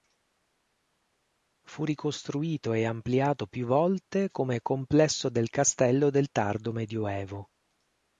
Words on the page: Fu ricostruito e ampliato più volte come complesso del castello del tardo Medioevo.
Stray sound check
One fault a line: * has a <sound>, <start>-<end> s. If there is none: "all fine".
all fine